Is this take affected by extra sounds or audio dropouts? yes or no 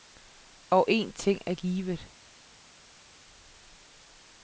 no